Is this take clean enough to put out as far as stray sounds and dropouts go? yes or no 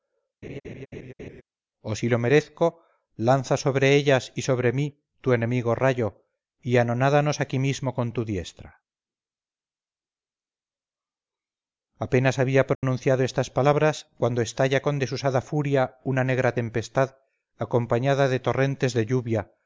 no